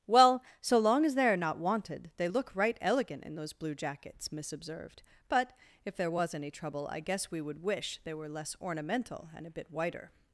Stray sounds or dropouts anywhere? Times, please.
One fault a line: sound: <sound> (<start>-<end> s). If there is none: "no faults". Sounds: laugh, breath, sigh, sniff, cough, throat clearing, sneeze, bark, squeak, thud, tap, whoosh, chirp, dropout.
no faults